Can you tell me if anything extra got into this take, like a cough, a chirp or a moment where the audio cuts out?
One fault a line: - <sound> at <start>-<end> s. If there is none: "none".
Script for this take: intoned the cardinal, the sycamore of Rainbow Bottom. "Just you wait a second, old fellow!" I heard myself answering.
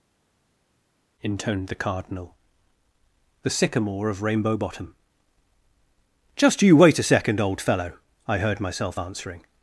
none